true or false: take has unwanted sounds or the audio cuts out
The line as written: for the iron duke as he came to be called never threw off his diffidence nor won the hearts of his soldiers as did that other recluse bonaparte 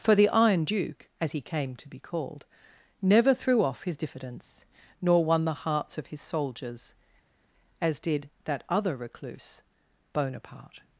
false